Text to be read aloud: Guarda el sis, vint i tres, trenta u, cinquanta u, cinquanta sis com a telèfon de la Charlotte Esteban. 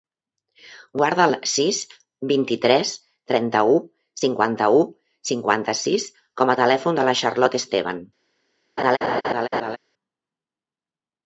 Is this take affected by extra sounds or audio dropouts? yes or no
yes